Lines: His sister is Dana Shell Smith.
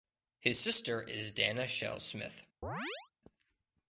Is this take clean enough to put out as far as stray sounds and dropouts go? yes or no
no